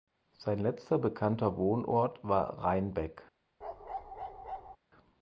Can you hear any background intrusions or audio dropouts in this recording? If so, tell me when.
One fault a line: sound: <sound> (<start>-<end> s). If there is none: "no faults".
sound: bark (3.6-4.8 s)